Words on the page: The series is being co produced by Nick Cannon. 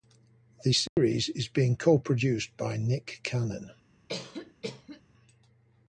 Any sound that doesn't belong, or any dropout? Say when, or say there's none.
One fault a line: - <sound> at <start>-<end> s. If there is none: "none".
- dropout at 0.9-1.0 s
- cough at 4.1-5.0 s